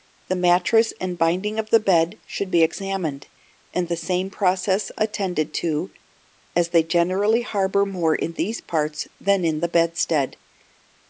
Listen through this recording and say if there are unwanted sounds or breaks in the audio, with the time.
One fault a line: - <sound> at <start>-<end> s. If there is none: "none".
none